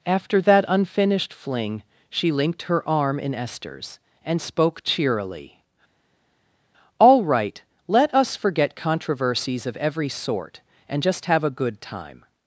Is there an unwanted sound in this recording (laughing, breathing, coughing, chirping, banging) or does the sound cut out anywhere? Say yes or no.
no